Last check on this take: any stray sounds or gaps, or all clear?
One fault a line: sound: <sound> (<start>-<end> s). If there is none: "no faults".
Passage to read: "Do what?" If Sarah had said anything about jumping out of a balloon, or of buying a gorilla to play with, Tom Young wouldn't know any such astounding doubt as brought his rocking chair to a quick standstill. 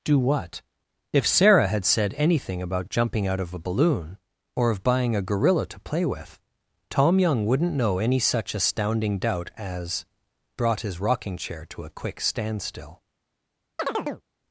sound: chirp (13.8-14.2 s)